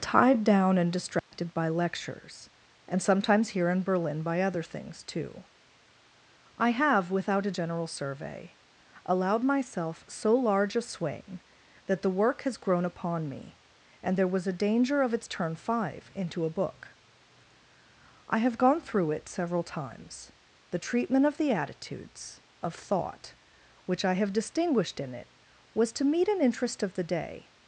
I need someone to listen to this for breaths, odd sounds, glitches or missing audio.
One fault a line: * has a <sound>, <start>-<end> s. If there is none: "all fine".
* has a dropout, 1.2-1.3 s